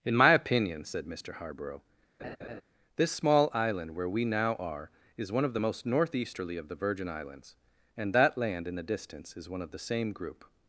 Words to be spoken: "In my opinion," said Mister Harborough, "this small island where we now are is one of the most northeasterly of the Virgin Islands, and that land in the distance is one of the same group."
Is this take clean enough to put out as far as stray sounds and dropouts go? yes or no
no